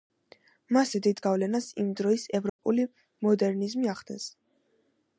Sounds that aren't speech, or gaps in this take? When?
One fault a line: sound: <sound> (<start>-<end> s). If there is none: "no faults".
sound: dropout (2.5-2.6 s)